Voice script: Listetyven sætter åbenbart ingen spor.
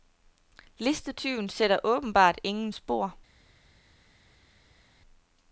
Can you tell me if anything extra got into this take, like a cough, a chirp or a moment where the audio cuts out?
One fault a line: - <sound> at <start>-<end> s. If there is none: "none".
none